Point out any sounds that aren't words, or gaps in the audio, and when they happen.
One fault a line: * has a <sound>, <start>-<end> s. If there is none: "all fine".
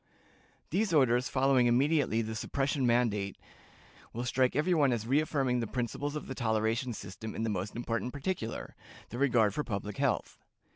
all fine